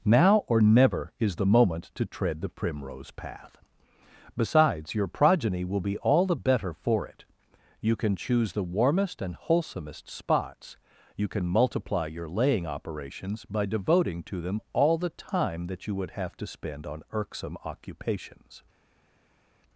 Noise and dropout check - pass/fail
pass